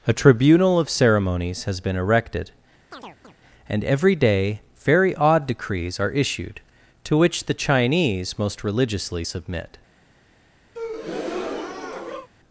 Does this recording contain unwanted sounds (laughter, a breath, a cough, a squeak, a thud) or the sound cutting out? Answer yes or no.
yes